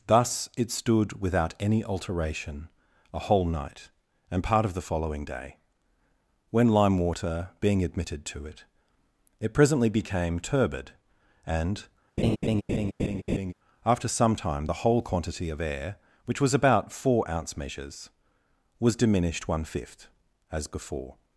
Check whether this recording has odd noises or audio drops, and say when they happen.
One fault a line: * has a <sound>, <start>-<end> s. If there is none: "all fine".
* has a laugh, 12.2-13.5 s